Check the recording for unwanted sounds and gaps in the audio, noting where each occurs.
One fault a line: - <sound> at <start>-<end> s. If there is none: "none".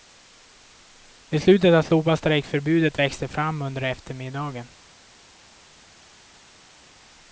none